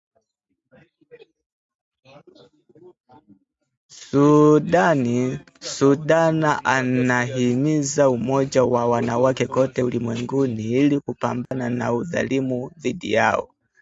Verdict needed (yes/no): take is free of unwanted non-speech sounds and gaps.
no